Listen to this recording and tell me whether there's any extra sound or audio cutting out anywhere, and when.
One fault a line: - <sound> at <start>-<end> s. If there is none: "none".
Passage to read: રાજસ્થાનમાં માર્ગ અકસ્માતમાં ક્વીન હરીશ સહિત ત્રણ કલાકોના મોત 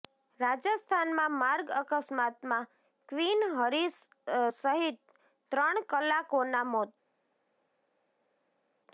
none